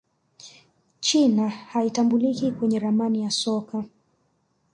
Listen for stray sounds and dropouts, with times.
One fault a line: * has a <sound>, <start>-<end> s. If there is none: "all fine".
all fine